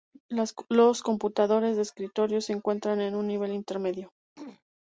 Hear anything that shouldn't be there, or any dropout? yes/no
yes